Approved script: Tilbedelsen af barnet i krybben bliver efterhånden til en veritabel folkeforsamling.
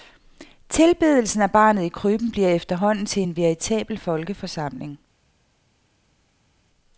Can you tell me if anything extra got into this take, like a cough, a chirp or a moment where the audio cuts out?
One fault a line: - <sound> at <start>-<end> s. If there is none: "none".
none